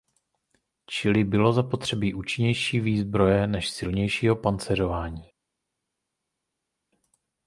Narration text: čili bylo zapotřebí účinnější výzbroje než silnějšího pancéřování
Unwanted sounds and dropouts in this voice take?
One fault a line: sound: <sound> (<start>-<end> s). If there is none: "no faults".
no faults